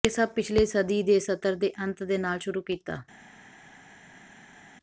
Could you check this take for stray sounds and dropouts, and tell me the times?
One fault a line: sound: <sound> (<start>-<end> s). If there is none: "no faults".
no faults